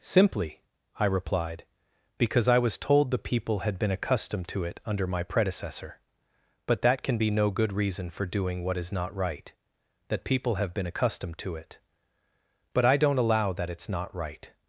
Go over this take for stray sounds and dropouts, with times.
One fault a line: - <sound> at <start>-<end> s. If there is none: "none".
none